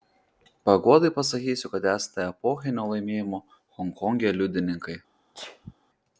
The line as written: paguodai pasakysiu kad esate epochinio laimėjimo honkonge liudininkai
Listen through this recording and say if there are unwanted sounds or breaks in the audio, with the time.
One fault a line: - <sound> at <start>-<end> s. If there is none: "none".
- sneeze at 5.3-5.7 s